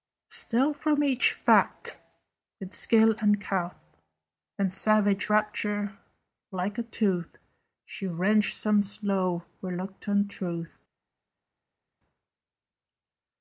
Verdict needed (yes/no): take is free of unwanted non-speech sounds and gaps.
yes